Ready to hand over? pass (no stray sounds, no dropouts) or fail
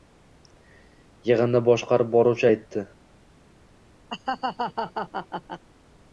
fail